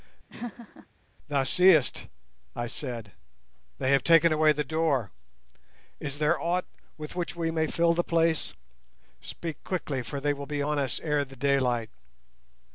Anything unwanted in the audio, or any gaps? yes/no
yes